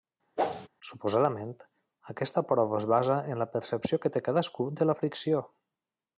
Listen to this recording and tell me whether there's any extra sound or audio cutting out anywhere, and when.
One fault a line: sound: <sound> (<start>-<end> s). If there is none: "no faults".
sound: whoosh (0.4-0.7 s)